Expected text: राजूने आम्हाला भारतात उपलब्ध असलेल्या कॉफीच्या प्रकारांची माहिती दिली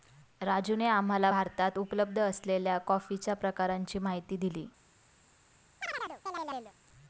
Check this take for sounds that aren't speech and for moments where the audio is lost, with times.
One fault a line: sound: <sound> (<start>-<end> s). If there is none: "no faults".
sound: chirp (5.8-6.7 s)